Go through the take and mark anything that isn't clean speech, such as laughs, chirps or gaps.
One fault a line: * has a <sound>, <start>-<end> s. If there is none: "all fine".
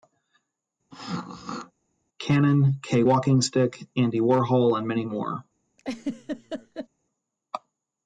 * has a throat clearing, 0.9-1.7 s
* has a laugh, 5.8-6.9 s